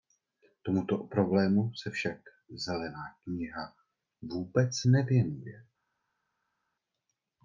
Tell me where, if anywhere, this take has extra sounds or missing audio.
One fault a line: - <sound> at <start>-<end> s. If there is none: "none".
none